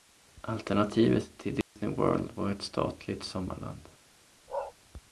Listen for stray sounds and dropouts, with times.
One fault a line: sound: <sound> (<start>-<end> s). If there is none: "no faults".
sound: dropout (1.6-1.8 s)
sound: bark (4.5-4.7 s)